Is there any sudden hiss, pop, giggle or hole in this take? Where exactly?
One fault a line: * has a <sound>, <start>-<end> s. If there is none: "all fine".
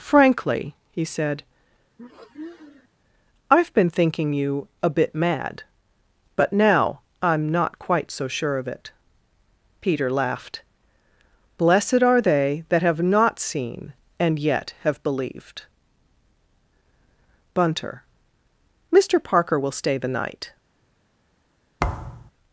* has a sniff, 2.0-2.9 s
* has a thud, 21.8-22.3 s